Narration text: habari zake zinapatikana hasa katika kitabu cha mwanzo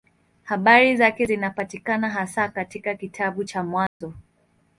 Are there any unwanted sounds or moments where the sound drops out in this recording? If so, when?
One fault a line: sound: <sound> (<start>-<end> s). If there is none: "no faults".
sound: dropout (3.9-4.0 s)